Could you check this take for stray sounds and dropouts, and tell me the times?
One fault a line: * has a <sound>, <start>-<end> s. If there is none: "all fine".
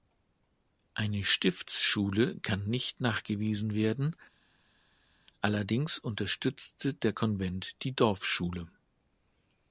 all fine